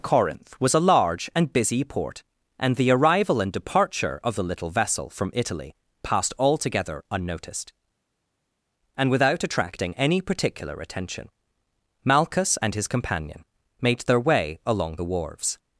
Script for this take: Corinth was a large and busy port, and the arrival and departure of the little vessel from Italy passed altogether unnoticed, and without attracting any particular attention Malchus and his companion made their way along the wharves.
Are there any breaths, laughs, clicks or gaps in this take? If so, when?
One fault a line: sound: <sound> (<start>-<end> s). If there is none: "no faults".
no faults